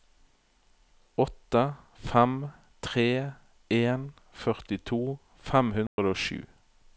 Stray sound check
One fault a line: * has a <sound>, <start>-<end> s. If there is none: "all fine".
* has a dropout, 5.9-6.0 s